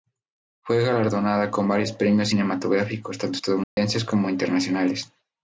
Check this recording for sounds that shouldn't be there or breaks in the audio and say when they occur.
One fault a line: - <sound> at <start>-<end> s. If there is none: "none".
- dropout at 3.6-3.8 s